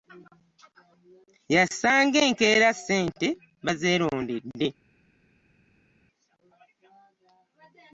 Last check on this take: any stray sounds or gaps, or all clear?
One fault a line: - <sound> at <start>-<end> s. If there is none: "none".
none